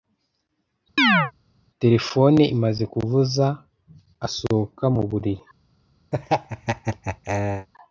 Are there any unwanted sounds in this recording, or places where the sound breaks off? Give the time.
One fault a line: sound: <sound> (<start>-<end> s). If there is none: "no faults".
sound: chirp (1.0-1.3 s)
sound: laugh (6.1-7.7 s)